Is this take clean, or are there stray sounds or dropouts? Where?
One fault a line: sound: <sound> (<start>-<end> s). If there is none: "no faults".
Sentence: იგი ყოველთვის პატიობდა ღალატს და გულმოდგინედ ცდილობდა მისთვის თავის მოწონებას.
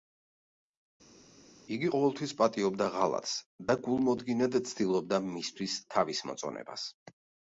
no faults